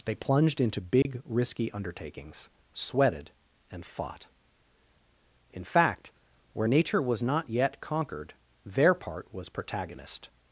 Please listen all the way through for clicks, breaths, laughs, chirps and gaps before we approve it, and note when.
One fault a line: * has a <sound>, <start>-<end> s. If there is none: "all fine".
* has a dropout, 1.0-1.1 s